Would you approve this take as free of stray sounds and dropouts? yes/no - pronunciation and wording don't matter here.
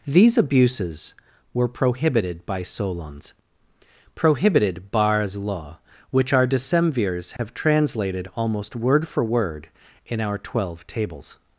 no